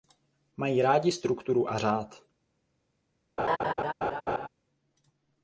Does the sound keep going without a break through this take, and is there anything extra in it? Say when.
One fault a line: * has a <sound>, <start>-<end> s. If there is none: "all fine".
* has a laugh, 3.4-4.5 s